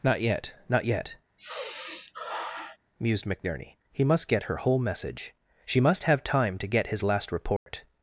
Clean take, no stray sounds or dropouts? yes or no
no